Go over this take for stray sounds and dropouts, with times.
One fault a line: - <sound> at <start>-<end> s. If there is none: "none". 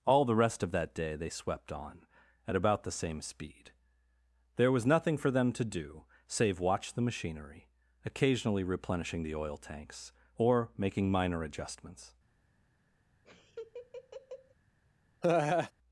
- laugh at 13.2-14.5 s
- laugh at 15.2-15.7 s